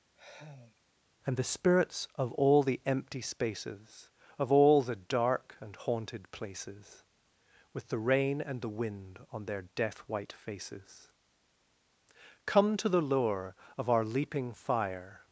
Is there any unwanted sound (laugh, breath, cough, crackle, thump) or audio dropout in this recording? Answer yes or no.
yes